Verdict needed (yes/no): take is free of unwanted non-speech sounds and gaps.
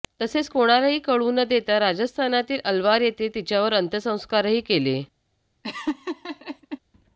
no